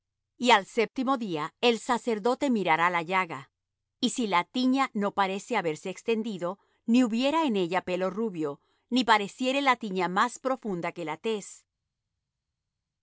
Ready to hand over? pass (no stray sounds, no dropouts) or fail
pass